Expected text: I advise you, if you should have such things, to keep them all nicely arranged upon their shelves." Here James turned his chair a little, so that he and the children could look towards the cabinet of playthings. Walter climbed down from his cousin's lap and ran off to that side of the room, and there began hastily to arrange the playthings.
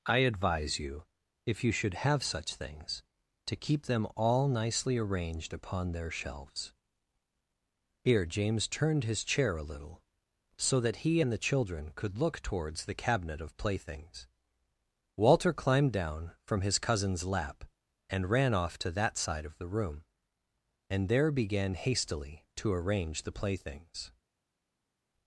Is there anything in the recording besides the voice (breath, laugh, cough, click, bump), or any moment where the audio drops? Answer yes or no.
no